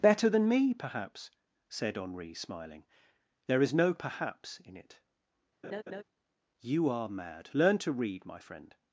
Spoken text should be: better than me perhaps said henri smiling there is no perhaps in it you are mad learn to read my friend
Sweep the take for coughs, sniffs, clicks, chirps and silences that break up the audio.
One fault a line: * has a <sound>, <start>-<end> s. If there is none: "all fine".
* has a laugh, 5.6-6.0 s